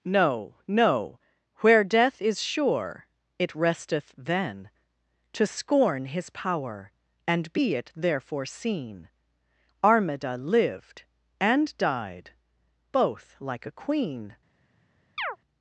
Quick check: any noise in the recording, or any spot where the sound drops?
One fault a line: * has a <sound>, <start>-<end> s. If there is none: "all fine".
* has a chirp, 15.2-15.4 s